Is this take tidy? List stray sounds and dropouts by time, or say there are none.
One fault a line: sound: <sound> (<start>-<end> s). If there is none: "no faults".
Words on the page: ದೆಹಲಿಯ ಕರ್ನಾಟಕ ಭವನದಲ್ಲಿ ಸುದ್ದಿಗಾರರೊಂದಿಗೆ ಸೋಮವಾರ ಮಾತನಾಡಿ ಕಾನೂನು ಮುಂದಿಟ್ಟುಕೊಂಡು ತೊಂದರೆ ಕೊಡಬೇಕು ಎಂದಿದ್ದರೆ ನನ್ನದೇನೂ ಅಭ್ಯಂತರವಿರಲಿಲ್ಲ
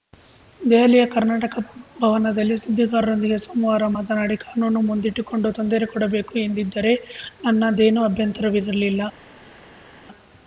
no faults